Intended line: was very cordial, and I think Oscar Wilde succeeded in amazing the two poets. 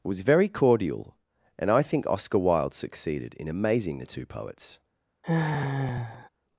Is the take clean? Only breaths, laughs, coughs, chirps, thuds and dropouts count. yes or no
no